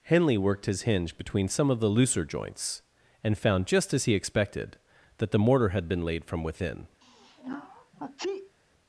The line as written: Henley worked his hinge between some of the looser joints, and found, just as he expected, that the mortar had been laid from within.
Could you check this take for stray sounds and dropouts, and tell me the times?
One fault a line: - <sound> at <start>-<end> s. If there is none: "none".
- sneeze at 7.0-8.6 s